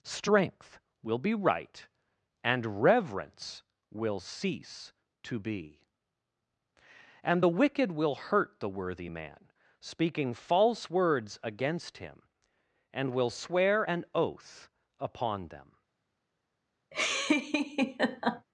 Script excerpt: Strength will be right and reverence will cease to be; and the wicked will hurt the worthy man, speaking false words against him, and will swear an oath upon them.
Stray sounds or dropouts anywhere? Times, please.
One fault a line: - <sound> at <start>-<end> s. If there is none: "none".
- laugh at 16.9-18.5 s